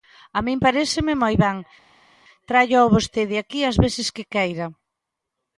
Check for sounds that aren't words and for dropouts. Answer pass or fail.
pass